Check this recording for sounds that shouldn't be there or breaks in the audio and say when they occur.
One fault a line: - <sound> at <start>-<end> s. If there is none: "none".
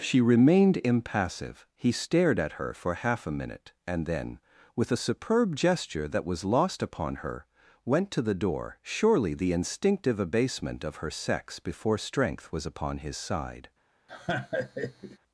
- laugh at 14.1-15.2 s